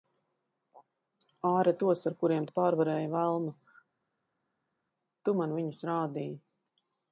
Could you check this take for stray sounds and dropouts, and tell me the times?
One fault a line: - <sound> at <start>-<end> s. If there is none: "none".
none